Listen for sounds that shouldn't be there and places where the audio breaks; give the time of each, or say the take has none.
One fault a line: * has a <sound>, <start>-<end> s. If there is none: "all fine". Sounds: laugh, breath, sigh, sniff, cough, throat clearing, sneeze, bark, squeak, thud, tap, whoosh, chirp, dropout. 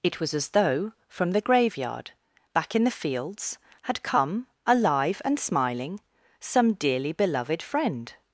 all fine